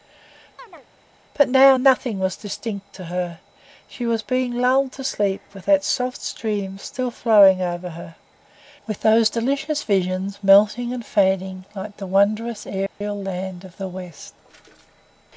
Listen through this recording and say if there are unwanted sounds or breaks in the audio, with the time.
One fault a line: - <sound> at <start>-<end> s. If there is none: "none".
- chirp at 0.6-0.9 s
- dropout at 12.9-13.0 s